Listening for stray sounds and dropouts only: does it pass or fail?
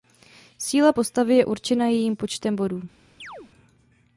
fail